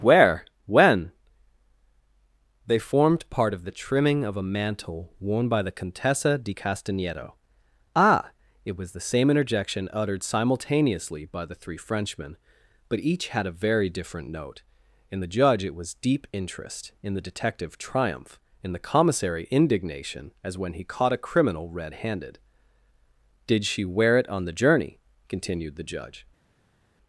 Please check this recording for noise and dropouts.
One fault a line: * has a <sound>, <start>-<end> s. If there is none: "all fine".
all fine